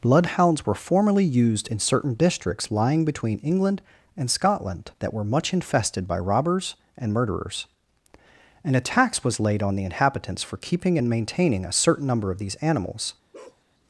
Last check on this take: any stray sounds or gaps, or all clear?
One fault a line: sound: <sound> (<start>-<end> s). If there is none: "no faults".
sound: bark (13.3-13.6 s)